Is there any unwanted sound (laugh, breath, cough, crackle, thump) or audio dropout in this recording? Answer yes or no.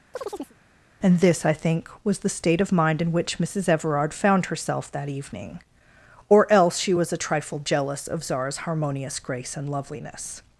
yes